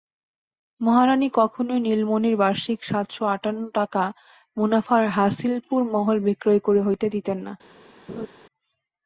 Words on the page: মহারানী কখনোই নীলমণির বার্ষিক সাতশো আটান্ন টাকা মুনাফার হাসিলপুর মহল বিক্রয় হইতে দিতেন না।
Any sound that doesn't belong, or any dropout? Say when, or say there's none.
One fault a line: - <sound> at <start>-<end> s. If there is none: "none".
- laugh at 8.1-8.3 s